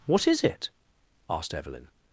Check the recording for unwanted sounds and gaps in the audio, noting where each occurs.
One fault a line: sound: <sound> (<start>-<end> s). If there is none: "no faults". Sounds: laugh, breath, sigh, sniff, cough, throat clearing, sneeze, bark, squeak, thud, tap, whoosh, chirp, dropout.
no faults